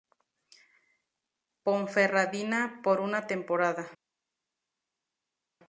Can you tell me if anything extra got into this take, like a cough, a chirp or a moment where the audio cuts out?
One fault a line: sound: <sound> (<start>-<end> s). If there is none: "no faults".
no faults